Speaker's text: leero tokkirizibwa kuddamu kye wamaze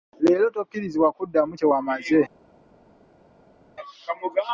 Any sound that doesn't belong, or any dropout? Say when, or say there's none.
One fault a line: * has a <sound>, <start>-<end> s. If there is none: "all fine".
all fine